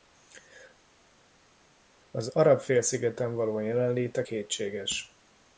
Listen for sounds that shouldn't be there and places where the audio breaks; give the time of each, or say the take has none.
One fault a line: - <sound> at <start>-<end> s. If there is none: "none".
none